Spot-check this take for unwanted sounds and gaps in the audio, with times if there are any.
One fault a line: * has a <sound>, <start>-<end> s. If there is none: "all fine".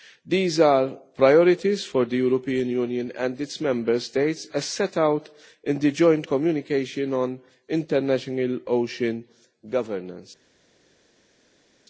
all fine